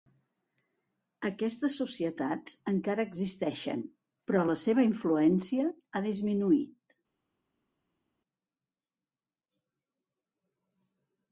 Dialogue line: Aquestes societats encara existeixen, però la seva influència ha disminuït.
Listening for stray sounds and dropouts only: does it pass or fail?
pass